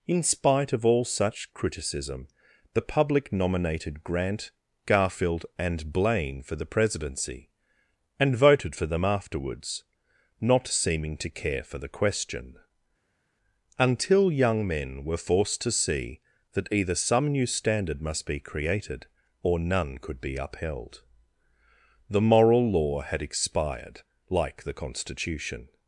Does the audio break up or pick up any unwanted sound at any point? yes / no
no